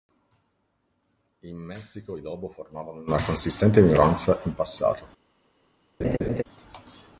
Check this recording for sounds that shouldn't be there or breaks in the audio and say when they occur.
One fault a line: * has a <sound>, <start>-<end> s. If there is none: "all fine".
* has a laugh, 6.0-6.4 s